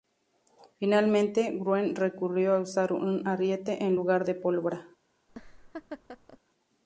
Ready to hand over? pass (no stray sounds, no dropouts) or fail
fail